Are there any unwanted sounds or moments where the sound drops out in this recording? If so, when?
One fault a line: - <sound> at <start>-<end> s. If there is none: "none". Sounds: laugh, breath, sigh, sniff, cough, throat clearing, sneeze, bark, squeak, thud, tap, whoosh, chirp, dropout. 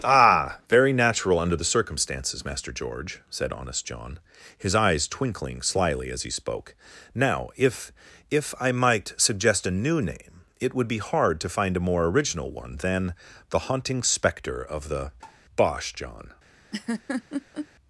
- tap at 15.2-15.4 s
- laugh at 16.7-17.7 s